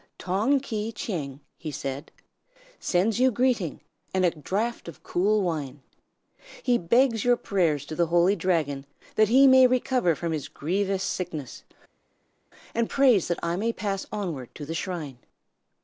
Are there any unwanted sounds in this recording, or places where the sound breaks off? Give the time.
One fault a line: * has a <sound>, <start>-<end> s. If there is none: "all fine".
all fine